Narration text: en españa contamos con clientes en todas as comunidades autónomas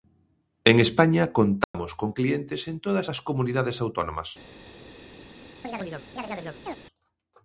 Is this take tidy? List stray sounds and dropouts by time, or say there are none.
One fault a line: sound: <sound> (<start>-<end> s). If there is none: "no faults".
sound: dropout (1.6-1.7 s)
sound: chirp (5.6-6.8 s)